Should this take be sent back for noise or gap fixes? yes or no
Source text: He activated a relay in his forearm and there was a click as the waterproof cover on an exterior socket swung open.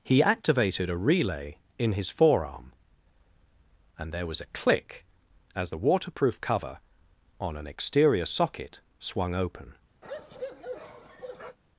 yes